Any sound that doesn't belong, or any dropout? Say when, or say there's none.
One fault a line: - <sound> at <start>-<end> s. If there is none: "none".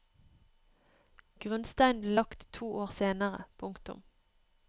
none